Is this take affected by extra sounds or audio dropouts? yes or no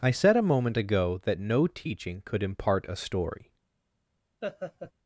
yes